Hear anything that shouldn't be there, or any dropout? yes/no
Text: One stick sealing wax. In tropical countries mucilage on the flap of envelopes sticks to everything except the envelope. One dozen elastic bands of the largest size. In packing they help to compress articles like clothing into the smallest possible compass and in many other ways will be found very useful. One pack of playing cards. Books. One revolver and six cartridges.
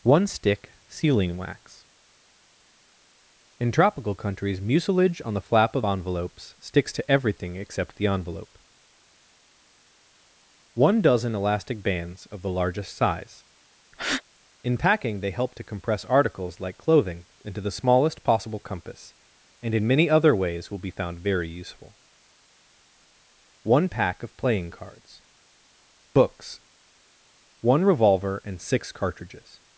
yes